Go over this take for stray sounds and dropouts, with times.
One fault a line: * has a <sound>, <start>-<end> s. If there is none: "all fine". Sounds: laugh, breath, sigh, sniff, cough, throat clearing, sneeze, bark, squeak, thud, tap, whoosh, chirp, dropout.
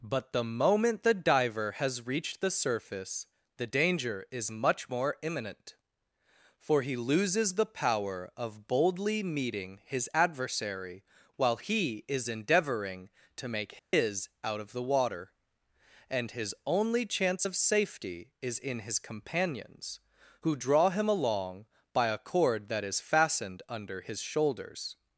* has a dropout, 13.8-13.9 s